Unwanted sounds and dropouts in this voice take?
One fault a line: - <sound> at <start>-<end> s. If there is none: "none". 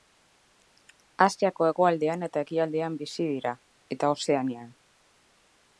none